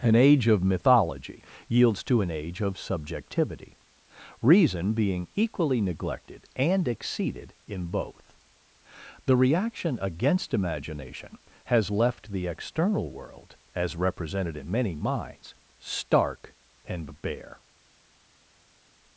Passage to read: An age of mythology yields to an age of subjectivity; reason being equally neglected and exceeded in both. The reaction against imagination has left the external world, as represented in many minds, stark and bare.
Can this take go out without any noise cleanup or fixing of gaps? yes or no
yes